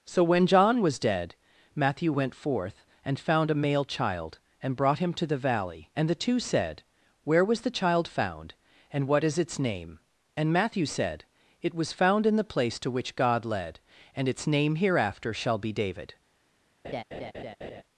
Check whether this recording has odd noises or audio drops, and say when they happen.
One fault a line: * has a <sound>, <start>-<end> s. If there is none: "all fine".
* has a laugh, 16.8-17.8 s